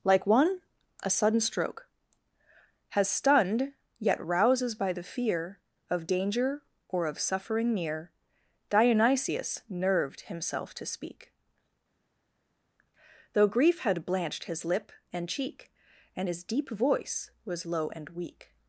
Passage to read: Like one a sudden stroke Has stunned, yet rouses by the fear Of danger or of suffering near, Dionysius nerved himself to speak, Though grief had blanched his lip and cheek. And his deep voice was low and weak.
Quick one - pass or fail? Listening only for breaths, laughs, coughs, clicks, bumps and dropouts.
pass